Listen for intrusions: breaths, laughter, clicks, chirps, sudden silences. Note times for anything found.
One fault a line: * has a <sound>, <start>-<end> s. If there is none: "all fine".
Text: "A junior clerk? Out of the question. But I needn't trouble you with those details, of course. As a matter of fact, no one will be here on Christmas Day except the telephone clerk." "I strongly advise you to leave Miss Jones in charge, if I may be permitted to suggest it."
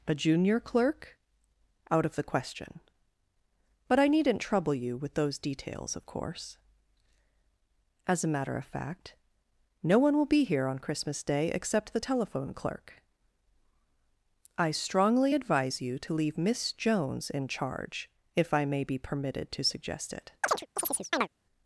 * has a chirp, 20.4-21.3 s